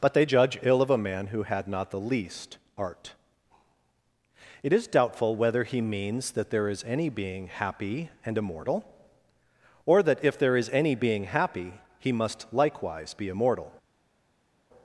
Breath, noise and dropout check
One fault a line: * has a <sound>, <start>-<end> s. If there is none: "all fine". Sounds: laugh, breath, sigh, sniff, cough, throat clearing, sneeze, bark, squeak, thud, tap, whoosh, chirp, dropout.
all fine